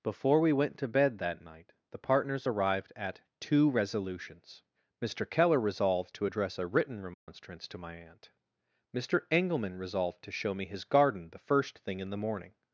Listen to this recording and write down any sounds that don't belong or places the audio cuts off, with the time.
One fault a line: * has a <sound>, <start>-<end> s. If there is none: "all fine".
* has a dropout, 7.1-7.3 s